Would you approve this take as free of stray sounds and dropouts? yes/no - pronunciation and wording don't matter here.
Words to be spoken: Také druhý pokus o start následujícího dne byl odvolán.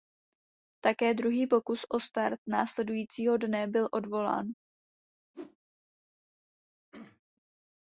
no